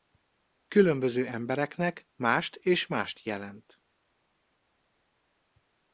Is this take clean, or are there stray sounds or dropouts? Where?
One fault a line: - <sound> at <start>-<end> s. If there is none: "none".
none